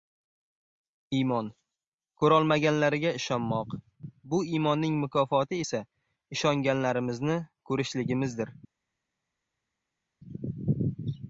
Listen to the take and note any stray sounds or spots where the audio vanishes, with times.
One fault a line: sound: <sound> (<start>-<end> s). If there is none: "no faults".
no faults